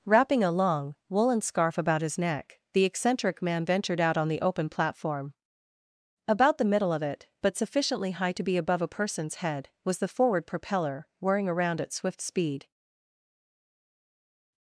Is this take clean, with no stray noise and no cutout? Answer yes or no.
yes